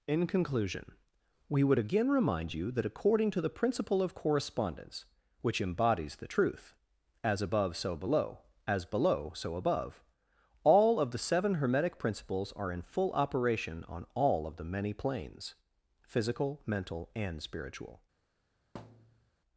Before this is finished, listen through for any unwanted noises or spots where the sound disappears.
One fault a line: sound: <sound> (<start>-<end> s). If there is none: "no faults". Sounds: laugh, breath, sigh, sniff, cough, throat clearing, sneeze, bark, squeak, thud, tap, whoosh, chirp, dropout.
sound: thud (18.7-19.3 s)